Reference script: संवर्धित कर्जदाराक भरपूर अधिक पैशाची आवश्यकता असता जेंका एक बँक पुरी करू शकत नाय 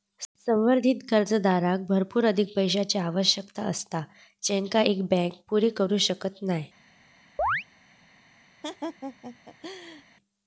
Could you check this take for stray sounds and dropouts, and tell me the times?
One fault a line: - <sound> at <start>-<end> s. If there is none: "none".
- chirp at 7.4-7.6 s
- laugh at 8.6-10.0 s